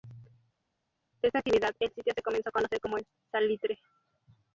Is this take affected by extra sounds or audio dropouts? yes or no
no